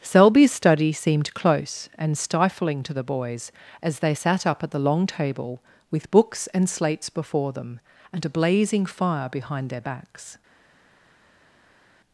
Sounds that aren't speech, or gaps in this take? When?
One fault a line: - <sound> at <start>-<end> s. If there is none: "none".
none